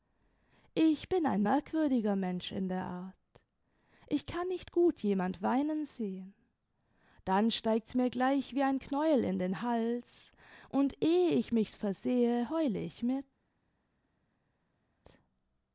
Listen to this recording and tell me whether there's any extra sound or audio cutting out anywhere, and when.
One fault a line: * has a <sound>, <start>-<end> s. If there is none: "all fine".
all fine